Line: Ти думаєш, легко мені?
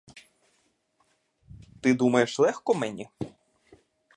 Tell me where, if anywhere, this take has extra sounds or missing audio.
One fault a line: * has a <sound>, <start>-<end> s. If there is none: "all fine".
all fine